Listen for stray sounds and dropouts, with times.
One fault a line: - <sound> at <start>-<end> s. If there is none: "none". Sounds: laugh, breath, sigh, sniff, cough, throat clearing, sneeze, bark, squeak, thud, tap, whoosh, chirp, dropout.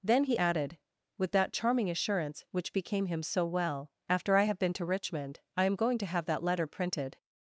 none